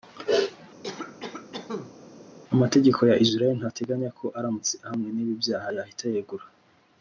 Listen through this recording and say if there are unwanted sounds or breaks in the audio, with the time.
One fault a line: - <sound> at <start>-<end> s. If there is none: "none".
- cough at 0.8-1.9 s